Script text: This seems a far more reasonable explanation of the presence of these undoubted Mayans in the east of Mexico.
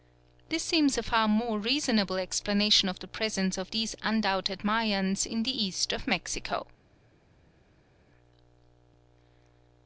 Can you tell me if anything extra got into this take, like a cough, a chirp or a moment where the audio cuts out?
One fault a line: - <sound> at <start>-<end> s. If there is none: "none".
none